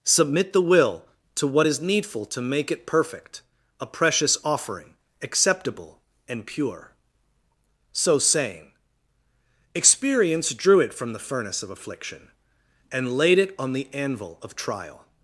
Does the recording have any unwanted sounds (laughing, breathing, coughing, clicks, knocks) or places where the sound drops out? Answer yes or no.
no